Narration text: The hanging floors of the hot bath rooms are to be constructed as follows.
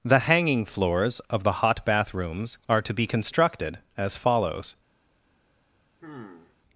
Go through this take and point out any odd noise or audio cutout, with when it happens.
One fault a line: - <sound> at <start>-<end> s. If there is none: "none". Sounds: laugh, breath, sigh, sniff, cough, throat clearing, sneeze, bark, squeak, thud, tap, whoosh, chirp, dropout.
- sigh at 6.0-6.6 s